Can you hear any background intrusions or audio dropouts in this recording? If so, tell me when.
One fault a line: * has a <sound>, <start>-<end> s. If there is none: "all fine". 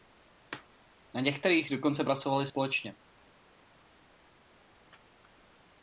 all fine